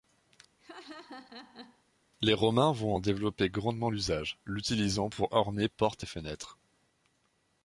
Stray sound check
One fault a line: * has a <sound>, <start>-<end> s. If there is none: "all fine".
* has a laugh, 0.6-1.8 s